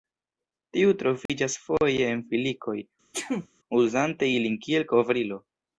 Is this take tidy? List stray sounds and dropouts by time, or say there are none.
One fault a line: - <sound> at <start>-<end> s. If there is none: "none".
- dropout at 1.3-1.3 s
- sneeze at 3.1-3.5 s